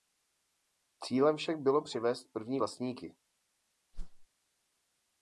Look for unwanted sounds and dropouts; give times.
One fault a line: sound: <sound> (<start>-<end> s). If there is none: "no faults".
sound: whoosh (3.9-4.3 s)